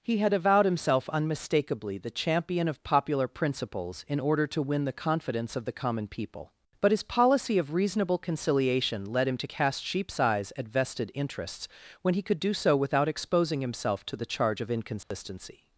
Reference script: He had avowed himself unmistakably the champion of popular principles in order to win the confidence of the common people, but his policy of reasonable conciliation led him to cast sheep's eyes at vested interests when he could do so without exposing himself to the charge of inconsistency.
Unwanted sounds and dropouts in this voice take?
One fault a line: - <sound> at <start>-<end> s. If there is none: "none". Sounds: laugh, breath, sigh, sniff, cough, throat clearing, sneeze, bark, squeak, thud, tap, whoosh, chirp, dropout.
- dropout at 15.0-15.1 s